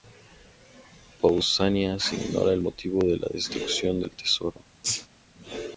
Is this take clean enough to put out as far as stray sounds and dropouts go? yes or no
no